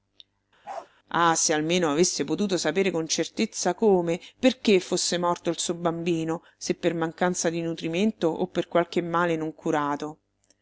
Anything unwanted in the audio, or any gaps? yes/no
yes